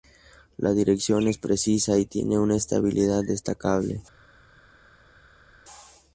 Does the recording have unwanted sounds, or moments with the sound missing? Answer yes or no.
no